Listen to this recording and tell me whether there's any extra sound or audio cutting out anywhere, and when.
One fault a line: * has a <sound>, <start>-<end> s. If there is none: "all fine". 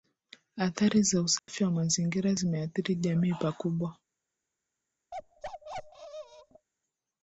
* has a dropout, 1.4-1.5 s
* has a bark, 5.1-6.7 s